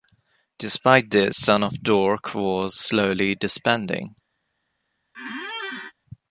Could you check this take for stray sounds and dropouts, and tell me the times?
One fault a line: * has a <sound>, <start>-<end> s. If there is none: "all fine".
* has a squeak, 5.1-5.9 s